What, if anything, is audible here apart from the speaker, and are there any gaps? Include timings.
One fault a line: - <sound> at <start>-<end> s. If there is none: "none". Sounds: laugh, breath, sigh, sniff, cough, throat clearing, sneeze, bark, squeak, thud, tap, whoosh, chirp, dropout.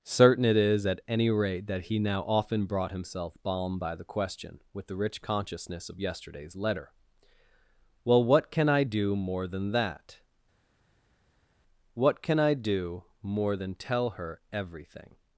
none